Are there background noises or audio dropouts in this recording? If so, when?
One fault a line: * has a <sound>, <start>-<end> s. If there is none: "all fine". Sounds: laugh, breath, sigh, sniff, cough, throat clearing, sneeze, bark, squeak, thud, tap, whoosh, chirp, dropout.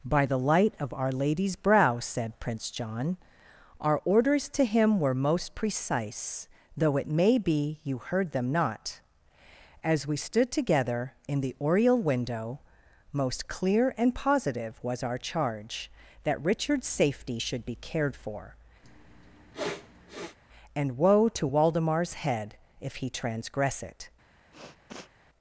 * has a sniff, 18.8-20.4 s
* has a sniff, 24.5-25.1 s